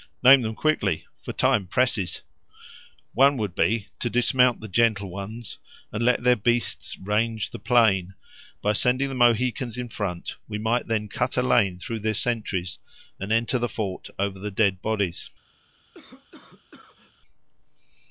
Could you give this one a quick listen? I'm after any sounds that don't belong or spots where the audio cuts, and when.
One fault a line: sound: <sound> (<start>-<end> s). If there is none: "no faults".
sound: cough (15.9-17.1 s)